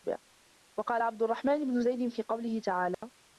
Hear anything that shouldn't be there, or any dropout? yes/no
yes